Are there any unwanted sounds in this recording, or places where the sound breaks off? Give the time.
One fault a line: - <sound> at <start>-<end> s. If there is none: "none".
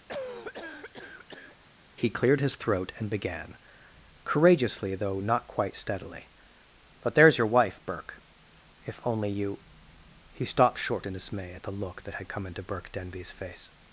- cough at 0.1-1.6 s